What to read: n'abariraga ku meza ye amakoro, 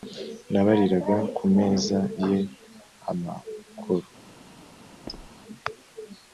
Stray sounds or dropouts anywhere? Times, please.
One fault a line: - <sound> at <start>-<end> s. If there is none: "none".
- squeak at 5.1-5.3 s